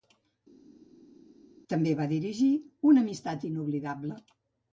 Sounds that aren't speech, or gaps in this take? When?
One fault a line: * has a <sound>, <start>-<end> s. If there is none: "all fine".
all fine